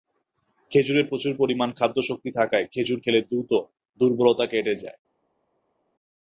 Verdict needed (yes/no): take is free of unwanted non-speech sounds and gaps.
yes